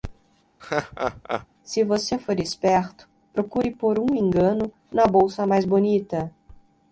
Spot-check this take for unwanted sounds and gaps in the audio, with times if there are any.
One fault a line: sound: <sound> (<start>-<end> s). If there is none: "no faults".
sound: laugh (0.6-1.5 s)